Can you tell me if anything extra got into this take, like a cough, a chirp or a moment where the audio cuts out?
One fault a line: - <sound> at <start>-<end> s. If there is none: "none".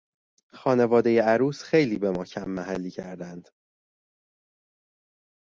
none